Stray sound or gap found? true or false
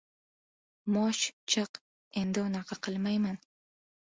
false